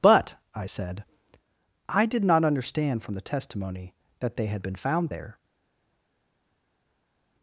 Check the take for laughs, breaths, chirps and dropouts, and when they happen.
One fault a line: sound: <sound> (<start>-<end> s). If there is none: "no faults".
no faults